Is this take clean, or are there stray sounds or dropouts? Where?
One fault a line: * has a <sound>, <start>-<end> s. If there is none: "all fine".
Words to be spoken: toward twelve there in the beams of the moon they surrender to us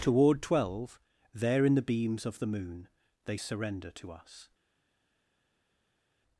all fine